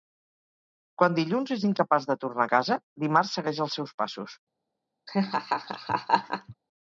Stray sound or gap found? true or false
true